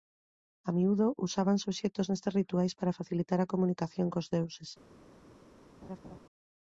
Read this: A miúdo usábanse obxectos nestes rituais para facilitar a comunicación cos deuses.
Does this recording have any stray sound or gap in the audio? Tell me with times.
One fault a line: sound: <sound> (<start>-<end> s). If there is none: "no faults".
sound: laugh (5.8-6.2 s)